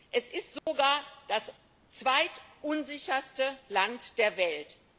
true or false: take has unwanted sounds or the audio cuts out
true